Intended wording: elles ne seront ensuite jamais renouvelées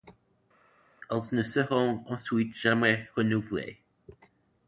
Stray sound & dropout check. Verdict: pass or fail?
pass